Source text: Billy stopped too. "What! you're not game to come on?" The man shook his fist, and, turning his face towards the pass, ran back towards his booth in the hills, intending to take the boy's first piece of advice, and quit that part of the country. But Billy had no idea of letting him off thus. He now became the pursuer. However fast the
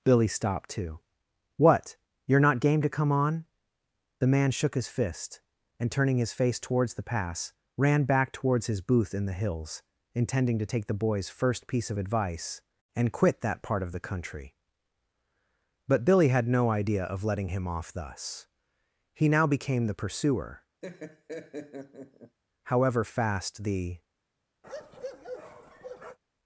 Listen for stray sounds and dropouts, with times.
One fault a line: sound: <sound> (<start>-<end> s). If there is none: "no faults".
sound: laugh (20.8-22.4 s)
sound: bark (24.6-26.2 s)